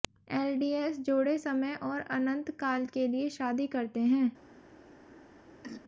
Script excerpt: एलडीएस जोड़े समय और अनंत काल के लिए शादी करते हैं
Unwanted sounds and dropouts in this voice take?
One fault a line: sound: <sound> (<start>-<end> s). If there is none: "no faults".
sound: throat clearing (5.6-5.8 s)